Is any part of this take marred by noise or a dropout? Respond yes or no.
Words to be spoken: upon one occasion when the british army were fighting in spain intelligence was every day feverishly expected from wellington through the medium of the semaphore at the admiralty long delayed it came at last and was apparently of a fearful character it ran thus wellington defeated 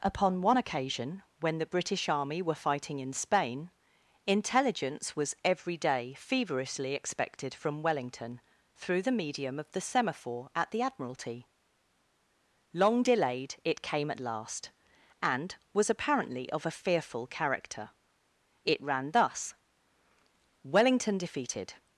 no